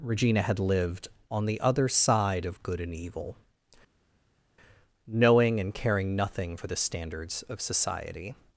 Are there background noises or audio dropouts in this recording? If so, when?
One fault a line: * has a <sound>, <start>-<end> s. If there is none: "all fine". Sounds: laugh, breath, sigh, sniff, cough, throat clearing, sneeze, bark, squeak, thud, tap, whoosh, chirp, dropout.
all fine